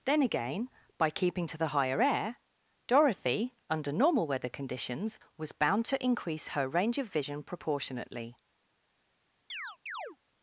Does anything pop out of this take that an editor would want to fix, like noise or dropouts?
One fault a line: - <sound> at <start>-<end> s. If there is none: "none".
- chirp at 9.5-10.2 s